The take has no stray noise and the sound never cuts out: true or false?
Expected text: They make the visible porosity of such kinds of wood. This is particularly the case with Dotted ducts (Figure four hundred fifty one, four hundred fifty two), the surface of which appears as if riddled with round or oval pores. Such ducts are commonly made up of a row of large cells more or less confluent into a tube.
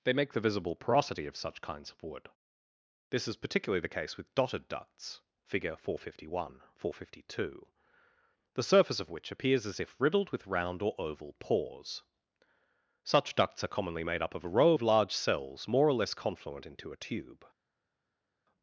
true